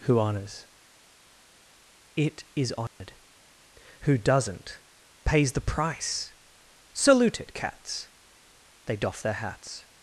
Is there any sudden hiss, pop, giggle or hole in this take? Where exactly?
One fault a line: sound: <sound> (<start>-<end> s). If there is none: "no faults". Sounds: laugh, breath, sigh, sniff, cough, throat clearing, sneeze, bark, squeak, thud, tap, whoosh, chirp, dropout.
sound: dropout (2.9-3.0 s)